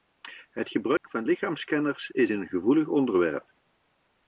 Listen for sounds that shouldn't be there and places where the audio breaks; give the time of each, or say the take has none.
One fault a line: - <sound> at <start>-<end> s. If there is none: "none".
- dropout at 1.0-1.0 s